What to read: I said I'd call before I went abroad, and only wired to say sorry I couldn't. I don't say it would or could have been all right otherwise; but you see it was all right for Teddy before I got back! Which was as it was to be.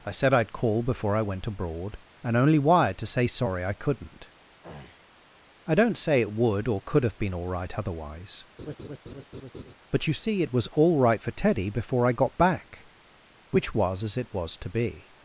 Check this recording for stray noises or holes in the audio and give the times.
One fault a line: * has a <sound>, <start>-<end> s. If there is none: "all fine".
* has a throat clearing, 4.6-5.2 s
* has a laugh, 8.6-9.7 s